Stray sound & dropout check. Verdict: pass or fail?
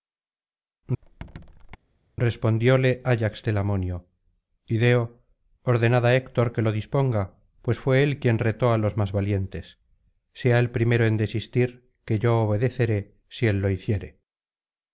fail